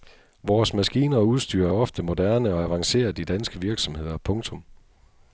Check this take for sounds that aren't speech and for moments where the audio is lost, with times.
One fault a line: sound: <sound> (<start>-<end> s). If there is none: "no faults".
no faults